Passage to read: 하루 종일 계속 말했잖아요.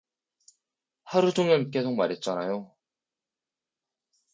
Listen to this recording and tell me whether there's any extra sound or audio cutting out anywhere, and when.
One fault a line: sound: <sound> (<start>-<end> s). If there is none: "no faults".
no faults